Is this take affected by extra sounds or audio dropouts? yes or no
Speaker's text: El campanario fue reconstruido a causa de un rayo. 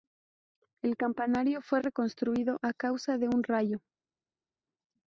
no